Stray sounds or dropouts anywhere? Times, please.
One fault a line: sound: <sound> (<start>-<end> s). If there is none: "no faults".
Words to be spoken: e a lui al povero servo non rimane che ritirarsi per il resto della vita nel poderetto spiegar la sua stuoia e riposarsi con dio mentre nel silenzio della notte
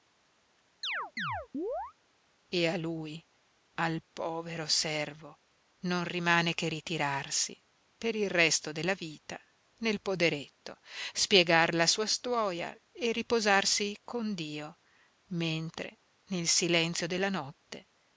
sound: chirp (0.8-1.9 s)